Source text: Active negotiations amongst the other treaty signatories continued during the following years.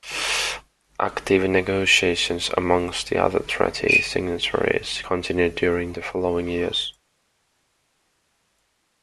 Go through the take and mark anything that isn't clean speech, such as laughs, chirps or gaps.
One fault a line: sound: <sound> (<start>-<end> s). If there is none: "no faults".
no faults